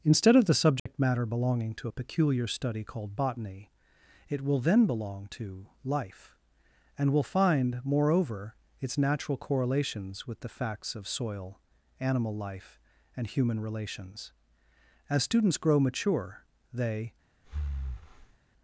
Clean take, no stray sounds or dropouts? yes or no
no